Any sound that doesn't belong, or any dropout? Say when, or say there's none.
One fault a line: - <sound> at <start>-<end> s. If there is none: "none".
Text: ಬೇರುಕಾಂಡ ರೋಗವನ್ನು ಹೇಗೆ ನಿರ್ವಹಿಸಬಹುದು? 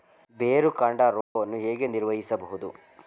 - dropout at 1.2-1.4 s